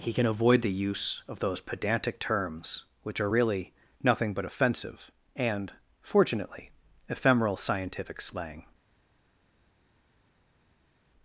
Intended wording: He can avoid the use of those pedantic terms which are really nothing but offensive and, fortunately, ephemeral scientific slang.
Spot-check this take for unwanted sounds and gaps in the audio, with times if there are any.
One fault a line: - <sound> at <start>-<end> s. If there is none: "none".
none